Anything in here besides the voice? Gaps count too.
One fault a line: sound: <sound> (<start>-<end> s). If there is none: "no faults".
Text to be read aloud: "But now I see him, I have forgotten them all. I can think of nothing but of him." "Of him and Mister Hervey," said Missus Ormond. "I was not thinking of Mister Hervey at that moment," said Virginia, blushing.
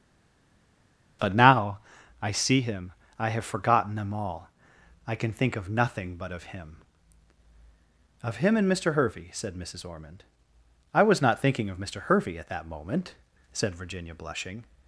no faults